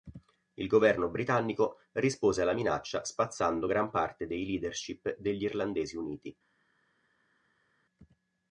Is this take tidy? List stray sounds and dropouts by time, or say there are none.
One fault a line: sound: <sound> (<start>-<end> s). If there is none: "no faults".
no faults